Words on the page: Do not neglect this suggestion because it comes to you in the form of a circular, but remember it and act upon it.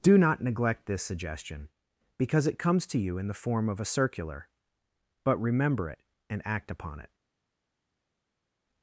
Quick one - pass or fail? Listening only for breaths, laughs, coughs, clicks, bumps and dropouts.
pass